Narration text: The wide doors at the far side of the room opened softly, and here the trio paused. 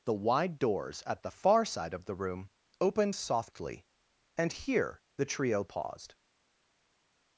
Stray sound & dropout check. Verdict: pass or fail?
pass